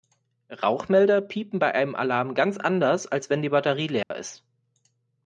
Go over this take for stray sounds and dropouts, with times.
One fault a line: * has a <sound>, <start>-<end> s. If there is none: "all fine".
* has a dropout, 4.0-4.1 s